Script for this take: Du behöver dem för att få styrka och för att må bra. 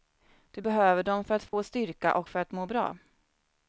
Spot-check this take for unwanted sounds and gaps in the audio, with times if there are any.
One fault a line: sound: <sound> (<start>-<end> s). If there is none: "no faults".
sound: dropout (1.5-1.5 s)